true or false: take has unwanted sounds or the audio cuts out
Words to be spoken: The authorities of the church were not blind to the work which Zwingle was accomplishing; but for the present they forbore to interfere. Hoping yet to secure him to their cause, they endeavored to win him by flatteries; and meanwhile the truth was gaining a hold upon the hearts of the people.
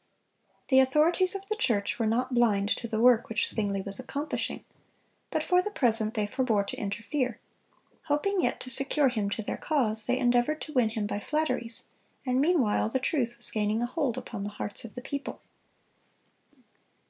false